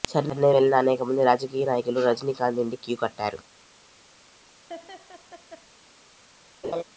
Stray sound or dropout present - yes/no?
yes